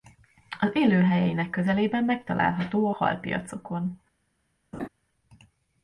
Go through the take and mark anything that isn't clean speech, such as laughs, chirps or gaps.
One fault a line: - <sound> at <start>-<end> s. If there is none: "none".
- laugh at 4.7-4.9 s